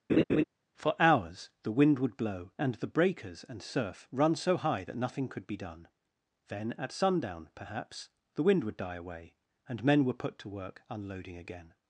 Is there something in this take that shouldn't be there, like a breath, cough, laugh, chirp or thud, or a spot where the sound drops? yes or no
yes